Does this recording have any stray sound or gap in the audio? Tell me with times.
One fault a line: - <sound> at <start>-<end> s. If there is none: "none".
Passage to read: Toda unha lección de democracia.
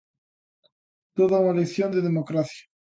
none